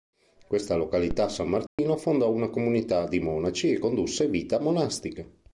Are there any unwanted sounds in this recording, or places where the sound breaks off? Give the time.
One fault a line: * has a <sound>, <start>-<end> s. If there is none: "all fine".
* has a dropout, 1.7-1.8 s